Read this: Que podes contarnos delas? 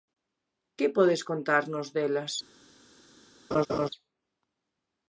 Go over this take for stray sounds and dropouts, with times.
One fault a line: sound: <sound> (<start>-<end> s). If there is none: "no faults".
sound: laugh (3.5-3.9 s)